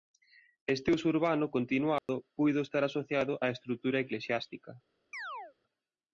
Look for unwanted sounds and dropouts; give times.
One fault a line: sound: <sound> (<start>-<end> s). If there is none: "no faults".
sound: dropout (2.0-2.1 s)
sound: chirp (5.1-5.5 s)